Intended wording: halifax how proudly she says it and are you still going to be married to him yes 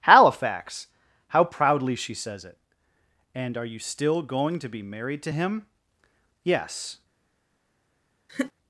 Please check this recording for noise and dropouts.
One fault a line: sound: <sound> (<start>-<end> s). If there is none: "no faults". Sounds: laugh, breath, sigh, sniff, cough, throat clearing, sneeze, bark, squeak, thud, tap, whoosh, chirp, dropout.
sound: laugh (8.3-8.5 s)